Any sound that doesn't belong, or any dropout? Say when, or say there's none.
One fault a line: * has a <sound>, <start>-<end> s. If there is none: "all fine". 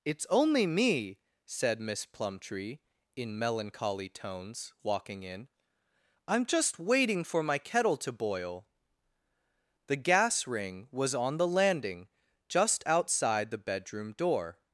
all fine